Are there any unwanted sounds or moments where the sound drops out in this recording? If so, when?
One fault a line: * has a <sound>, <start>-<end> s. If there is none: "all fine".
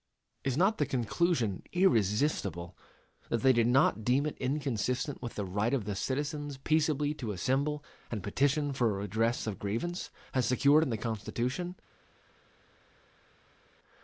all fine